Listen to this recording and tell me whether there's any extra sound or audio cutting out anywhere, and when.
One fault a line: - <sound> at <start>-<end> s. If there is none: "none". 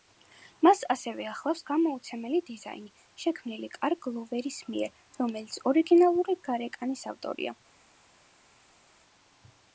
none